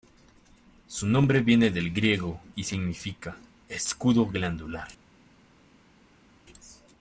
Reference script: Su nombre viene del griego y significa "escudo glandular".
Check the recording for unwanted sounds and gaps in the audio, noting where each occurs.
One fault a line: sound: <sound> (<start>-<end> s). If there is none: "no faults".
no faults